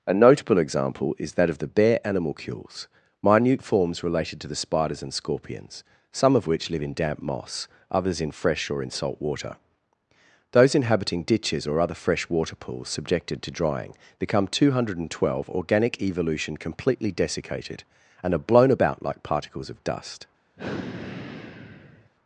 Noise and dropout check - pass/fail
fail